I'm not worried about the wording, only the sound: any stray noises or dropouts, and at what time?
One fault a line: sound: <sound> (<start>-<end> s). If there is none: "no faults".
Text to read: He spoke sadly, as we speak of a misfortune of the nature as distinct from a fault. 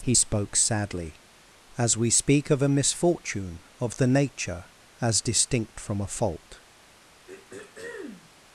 sound: throat clearing (7.3-8.3 s)